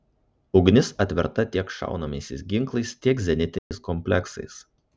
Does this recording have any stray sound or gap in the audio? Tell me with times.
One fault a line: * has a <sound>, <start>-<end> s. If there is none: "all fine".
* has a dropout, 3.6-3.7 s